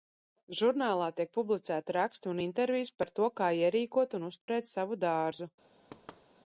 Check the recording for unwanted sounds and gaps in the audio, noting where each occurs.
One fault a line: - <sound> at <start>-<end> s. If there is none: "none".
- dropout at 4.4-4.5 s
- thud at 5.9-6.3 s